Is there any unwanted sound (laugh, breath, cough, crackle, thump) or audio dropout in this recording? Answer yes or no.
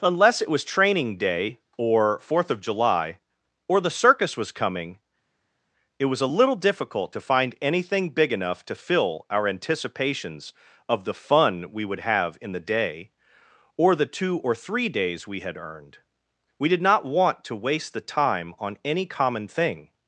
no